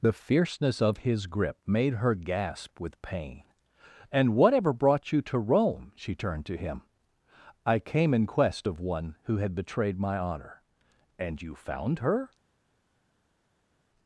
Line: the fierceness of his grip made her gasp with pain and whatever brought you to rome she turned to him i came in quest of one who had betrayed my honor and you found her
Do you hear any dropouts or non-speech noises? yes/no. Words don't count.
no